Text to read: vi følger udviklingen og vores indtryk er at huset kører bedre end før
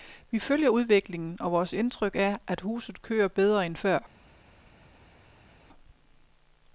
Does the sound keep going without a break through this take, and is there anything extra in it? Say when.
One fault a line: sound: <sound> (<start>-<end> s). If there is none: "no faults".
no faults